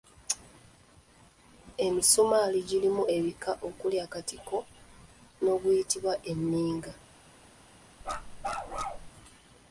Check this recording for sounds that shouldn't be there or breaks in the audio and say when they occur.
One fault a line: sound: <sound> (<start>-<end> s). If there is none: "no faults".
sound: bark (8.0-9.1 s)